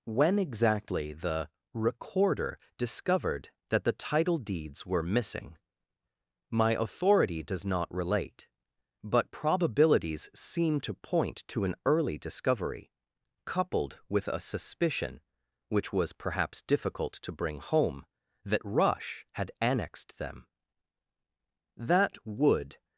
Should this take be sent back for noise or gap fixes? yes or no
no